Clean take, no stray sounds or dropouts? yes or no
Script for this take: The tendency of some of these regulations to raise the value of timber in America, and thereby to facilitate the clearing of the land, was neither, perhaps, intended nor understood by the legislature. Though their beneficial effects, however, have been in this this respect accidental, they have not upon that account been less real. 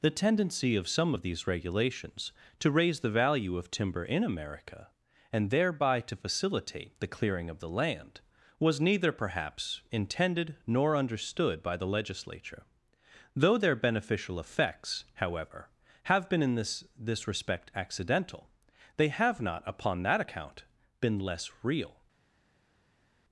yes